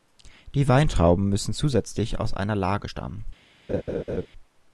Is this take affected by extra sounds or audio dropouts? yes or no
yes